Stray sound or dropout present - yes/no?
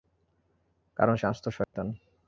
yes